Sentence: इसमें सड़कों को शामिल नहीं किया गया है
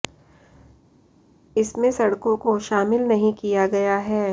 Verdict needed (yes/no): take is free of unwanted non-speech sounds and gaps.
yes